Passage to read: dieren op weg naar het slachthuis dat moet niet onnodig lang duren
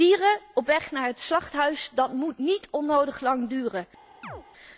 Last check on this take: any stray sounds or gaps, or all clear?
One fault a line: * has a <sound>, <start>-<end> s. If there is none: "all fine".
* has a chirp, 4.2-4.4 s